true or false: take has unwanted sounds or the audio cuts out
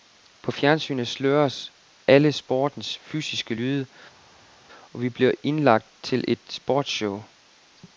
false